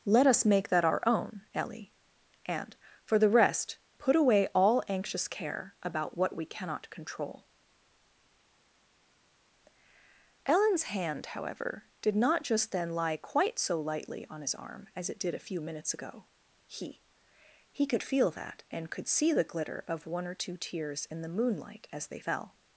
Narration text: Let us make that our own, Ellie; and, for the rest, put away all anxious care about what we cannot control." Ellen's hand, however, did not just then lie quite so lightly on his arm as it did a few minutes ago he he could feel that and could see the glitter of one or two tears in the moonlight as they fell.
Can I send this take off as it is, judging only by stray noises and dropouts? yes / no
yes